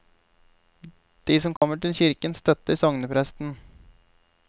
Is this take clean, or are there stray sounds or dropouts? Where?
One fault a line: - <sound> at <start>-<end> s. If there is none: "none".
- dropout at 1.6-1.6 s